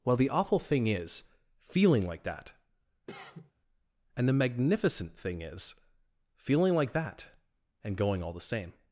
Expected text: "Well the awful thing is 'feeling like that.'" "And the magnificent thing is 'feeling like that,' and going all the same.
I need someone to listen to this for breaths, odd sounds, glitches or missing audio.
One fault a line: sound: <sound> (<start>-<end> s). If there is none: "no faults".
sound: cough (3.1-3.5 s)